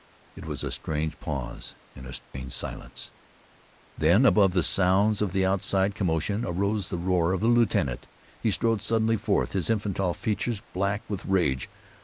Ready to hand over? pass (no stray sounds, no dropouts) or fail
fail